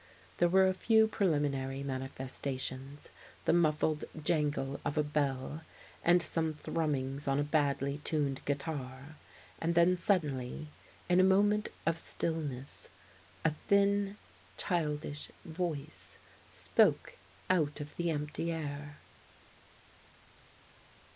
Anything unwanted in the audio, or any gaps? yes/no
no